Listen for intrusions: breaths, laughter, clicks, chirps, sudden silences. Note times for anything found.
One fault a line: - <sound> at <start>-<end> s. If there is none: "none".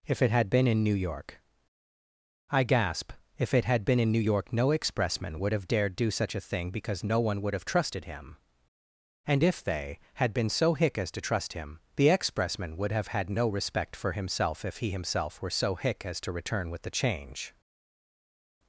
none